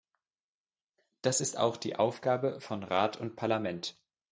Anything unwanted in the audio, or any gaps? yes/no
no